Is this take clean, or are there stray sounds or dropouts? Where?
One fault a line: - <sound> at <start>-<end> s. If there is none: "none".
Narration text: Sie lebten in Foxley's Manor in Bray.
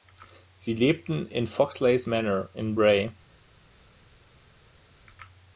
none